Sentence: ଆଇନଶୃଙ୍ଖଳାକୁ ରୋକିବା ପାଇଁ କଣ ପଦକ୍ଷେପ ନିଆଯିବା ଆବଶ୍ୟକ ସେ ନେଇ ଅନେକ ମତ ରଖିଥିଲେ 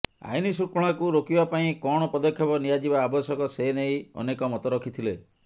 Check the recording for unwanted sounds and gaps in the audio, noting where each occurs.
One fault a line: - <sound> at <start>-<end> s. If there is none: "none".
none